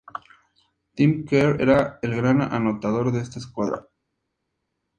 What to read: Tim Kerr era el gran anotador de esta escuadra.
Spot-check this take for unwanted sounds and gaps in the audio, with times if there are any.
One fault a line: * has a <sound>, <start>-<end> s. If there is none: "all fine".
all fine